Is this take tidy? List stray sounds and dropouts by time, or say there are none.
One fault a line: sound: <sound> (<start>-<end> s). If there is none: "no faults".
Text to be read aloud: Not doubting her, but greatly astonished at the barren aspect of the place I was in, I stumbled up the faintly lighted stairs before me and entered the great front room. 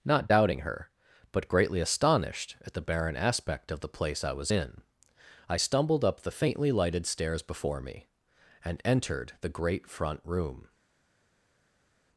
no faults